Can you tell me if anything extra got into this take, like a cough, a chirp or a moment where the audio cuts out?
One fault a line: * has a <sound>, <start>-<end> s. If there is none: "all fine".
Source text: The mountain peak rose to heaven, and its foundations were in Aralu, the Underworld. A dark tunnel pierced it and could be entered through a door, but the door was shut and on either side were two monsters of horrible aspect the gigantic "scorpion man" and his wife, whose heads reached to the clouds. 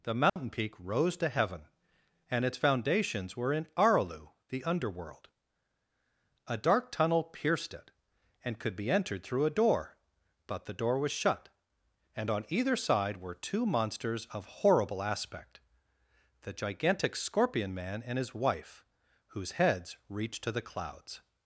* has a dropout, 0.3-0.4 s